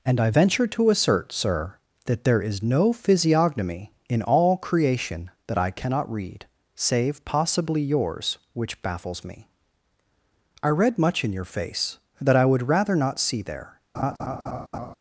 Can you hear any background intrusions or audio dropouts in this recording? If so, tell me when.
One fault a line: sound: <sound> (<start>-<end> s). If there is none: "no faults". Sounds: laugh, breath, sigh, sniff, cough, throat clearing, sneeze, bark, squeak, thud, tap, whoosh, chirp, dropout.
sound: laugh (13.9-14.9 s)